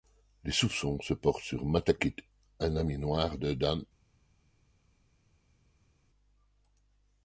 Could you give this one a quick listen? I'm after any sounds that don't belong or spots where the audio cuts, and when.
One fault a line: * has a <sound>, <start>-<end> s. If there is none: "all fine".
all fine